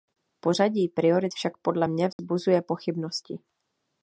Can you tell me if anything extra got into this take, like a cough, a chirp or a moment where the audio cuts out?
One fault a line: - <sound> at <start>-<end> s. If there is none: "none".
- dropout at 2.1-2.2 s